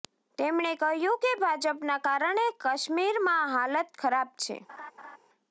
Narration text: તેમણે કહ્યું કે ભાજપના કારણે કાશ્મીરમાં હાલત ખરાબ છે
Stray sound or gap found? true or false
true